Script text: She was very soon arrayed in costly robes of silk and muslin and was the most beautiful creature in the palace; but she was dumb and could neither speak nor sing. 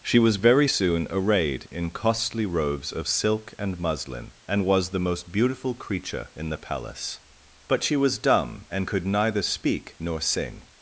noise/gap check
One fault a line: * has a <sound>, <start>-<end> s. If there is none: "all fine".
all fine